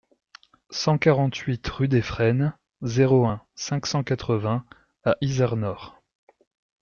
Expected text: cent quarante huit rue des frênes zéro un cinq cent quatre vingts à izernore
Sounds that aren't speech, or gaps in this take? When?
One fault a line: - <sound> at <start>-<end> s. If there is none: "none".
none